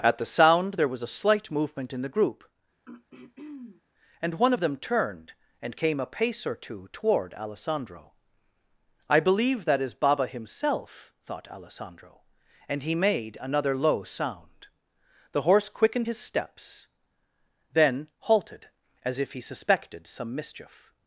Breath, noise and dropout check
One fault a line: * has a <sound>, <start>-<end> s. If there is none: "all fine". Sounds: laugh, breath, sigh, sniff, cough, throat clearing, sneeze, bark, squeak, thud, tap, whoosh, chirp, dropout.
* has a throat clearing, 2.8-3.8 s